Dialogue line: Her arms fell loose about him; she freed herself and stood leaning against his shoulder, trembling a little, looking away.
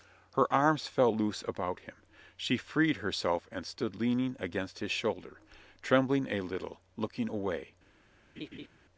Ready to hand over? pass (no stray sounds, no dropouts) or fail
fail